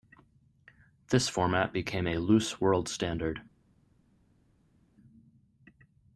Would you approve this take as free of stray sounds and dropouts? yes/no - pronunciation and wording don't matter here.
yes